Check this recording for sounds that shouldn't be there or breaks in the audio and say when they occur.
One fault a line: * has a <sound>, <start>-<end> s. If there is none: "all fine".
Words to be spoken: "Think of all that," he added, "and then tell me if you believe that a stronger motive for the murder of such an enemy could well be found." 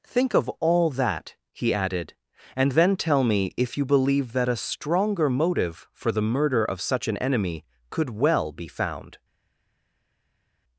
all fine